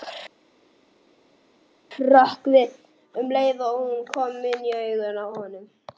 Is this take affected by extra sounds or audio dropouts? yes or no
no